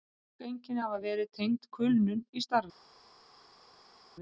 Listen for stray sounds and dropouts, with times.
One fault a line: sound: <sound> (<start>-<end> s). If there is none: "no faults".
no faults